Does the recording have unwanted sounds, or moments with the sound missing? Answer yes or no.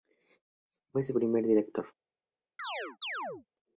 yes